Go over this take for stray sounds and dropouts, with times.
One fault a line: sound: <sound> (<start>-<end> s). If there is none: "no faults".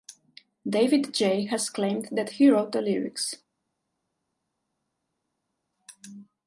no faults